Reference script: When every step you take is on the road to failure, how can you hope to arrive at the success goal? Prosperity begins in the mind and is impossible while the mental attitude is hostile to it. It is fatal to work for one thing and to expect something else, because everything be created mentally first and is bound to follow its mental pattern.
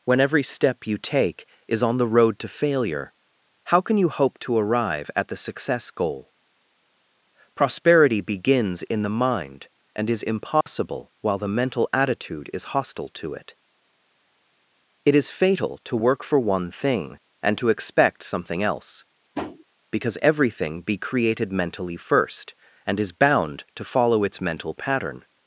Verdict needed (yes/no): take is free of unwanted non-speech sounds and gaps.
no